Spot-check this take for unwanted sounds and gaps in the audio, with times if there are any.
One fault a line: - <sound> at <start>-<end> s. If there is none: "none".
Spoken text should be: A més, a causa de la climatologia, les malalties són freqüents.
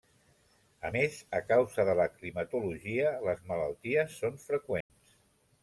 - dropout at 4.8-4.9 s